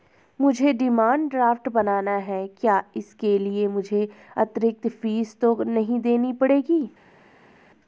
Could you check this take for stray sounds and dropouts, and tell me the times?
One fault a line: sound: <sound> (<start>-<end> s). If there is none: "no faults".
no faults